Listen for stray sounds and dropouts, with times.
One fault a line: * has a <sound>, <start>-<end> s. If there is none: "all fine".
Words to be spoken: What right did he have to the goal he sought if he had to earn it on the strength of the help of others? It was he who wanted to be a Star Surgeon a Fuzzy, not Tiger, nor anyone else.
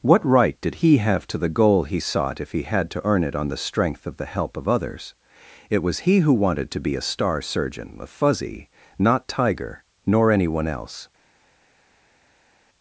all fine